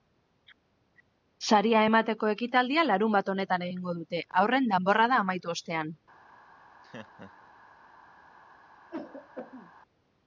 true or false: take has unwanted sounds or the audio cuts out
true